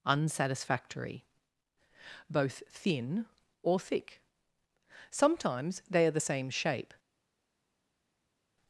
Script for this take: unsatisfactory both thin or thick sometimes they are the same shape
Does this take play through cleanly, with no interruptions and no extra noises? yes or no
yes